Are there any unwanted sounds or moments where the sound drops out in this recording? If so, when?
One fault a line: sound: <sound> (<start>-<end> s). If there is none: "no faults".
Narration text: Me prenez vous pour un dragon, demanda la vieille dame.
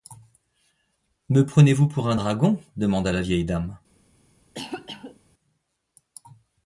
sound: cough (4.5-5.2 s)